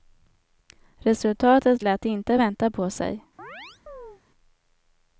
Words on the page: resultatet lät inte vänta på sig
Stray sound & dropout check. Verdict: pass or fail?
fail